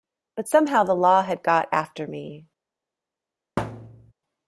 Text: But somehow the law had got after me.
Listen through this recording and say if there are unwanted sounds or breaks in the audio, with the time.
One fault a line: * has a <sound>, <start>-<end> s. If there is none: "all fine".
* has a thud, 3.6-4.1 s